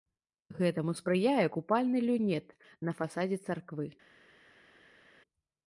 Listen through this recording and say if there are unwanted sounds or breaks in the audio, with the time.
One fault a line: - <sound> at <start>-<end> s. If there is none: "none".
none